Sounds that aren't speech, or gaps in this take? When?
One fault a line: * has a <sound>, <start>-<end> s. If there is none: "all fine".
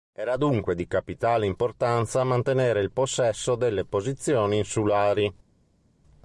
all fine